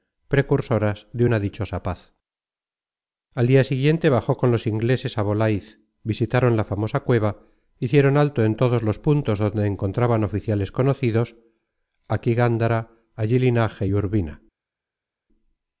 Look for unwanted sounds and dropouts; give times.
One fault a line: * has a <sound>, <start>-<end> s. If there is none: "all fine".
all fine